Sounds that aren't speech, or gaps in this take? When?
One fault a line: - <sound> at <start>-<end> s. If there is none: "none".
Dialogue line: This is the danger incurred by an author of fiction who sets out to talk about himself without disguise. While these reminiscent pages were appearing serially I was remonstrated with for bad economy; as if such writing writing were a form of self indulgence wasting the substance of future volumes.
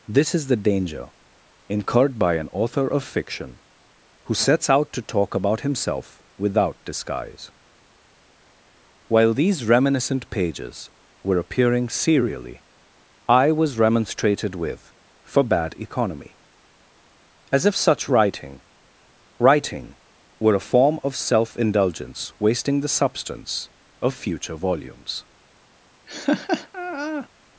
- laugh at 26.1-27.3 s